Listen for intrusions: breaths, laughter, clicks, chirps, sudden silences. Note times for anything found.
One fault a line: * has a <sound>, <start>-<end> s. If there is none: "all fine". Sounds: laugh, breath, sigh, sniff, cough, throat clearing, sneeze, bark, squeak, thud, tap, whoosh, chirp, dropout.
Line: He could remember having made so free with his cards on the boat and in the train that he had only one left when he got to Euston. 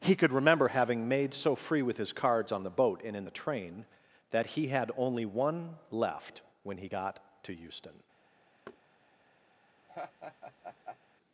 * has a thud, 8.7-8.8 s
* has a laugh, 9.9-11.0 s